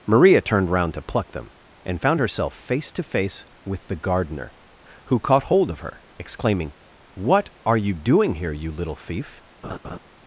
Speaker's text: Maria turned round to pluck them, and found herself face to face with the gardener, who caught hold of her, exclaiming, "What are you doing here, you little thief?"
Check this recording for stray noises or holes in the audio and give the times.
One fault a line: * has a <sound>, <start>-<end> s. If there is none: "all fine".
* has a laugh, 9.6-10.0 s